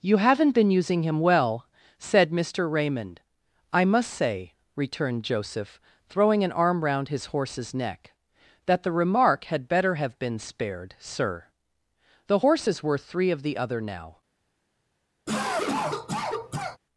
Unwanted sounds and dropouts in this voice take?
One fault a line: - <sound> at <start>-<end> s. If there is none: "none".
- cough at 15.3-16.8 s